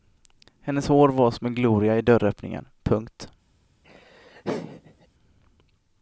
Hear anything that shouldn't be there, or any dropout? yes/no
yes